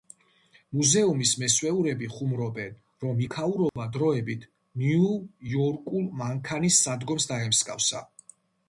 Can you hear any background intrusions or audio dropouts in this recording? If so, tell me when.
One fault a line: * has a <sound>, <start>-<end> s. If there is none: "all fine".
* has a dropout, 3.7-3.8 s